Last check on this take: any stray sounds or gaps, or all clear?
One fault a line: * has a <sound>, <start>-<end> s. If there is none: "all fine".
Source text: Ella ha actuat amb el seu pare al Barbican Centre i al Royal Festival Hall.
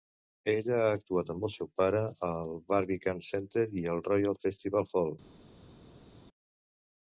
all fine